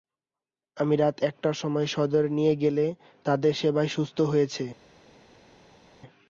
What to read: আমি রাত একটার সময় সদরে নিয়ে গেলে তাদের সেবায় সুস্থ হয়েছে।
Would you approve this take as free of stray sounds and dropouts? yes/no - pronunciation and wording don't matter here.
yes